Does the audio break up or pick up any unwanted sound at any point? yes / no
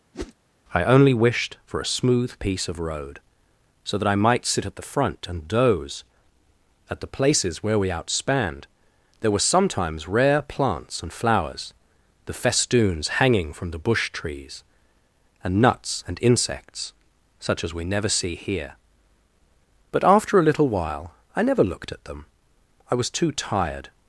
yes